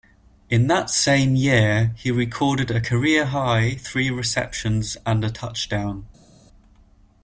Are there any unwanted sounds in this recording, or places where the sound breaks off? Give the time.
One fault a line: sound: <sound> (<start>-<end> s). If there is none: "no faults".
no faults